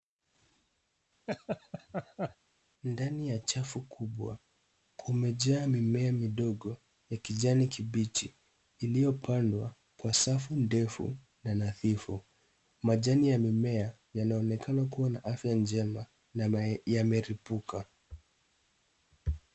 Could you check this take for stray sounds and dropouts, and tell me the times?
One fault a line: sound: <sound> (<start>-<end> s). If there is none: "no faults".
sound: laugh (1.3-2.4 s)